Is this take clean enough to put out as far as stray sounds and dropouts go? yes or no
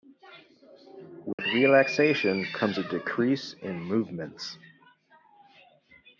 no